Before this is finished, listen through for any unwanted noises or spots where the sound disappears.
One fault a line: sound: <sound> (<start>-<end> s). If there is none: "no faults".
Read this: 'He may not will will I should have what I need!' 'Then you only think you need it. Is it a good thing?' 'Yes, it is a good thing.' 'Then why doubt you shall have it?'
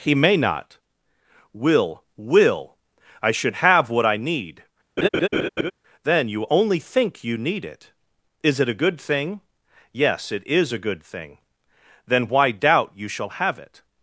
sound: laugh (5.0-5.7 s)